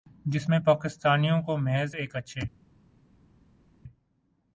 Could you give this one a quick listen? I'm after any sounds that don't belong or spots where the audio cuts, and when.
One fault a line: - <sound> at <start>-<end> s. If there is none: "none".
none